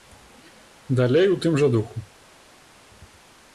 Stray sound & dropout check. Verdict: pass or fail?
pass